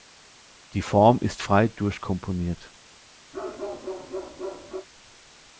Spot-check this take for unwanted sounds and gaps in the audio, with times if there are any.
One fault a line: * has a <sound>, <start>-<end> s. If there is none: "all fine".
* has a bark, 3.3-4.9 s